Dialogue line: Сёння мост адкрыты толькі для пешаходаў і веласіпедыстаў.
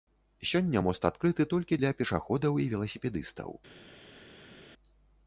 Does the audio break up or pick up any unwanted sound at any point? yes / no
no